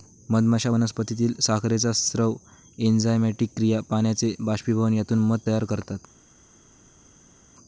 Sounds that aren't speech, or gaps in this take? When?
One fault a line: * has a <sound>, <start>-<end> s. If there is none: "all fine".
all fine